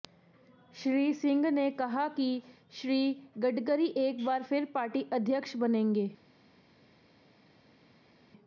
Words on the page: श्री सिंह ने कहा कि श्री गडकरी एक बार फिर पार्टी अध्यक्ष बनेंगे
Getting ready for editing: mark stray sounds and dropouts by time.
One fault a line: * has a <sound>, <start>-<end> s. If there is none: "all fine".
all fine